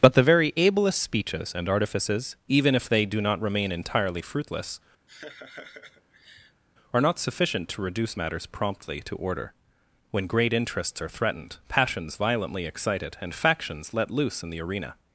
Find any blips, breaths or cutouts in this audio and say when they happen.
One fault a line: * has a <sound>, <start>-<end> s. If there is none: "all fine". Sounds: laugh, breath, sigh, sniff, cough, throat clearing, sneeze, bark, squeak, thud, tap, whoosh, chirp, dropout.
* has a laugh, 5.1-6.6 s